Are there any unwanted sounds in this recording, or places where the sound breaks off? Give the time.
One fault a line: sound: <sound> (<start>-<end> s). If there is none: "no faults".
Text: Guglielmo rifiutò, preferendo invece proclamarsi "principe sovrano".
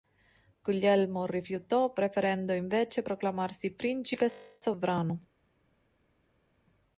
no faults